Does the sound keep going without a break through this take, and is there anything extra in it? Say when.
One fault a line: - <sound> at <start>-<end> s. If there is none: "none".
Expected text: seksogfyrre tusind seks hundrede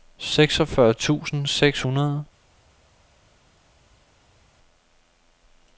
none